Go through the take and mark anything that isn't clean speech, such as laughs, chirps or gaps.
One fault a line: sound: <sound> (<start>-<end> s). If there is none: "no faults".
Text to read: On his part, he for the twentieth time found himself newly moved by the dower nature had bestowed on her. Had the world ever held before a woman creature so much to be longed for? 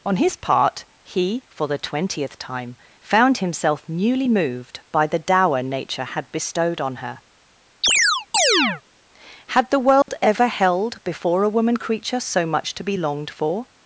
sound: chirp (7.8-8.8 s)
sound: dropout (10.0-10.1 s)